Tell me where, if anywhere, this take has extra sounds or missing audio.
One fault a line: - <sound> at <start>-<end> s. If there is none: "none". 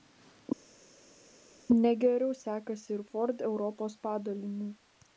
none